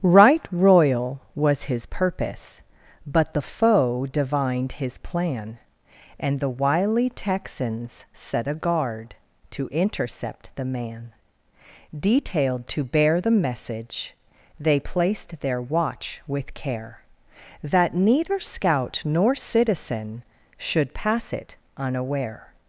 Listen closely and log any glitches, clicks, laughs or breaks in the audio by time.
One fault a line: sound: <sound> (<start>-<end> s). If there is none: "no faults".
no faults